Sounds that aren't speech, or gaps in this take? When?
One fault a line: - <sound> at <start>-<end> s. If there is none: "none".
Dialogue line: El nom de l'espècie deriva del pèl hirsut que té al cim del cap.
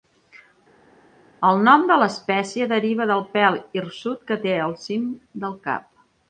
none